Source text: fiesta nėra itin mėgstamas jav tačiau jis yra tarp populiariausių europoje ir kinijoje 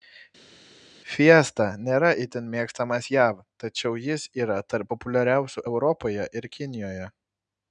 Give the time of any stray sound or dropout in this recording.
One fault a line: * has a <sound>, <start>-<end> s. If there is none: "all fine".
all fine